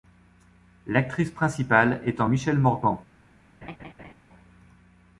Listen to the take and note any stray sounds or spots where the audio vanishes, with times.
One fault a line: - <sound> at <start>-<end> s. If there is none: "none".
- laugh at 3.6-4.1 s